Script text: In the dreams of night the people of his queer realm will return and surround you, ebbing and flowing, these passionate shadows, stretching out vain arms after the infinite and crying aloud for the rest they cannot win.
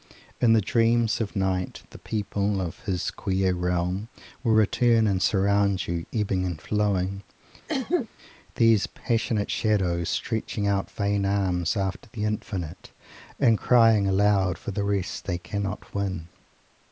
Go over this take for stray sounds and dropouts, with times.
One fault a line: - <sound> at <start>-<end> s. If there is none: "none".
- cough at 7.7-8.1 s